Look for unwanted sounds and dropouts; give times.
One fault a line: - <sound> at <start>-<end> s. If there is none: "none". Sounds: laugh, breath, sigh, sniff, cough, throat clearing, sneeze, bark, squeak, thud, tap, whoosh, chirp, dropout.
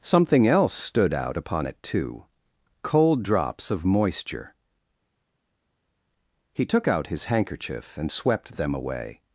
none